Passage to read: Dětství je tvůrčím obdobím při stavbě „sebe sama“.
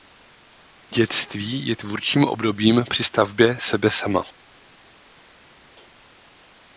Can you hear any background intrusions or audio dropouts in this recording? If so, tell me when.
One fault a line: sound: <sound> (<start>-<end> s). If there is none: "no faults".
no faults